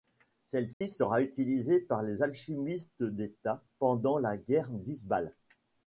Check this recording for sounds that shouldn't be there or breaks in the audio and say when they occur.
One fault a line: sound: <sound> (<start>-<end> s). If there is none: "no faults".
sound: dropout (0.7-0.8 s)